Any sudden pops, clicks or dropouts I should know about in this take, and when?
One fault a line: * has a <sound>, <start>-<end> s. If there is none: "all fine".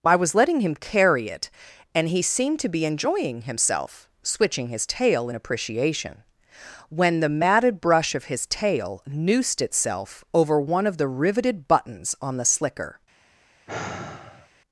* has a sigh, 13.7-14.5 s